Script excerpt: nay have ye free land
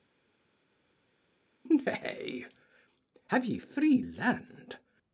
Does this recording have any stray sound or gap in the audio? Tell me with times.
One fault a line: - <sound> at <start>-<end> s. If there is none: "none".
none